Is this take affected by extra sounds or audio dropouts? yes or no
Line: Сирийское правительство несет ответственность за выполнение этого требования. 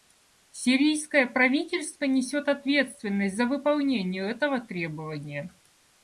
no